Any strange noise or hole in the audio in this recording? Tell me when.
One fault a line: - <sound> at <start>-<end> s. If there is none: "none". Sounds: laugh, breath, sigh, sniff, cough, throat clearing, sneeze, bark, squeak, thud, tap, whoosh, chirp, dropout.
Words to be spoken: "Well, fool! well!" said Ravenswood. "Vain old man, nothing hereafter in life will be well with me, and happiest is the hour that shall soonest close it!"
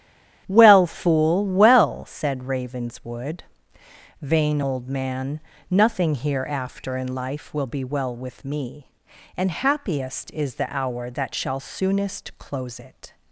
none